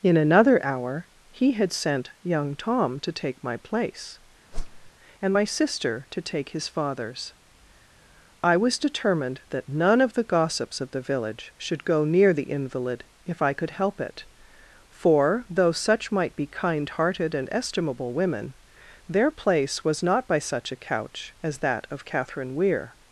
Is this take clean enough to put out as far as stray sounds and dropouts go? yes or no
no